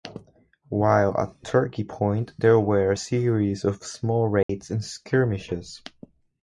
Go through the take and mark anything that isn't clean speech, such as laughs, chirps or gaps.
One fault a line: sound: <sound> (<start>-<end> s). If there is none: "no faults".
sound: dropout (4.4-4.5 s)